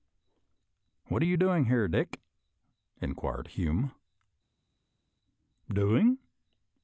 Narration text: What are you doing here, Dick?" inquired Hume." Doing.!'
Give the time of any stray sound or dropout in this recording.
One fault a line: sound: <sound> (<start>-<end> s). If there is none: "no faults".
no faults